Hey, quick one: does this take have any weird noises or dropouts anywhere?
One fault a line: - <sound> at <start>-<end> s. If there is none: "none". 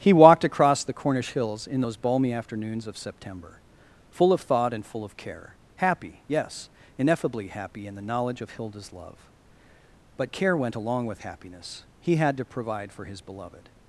none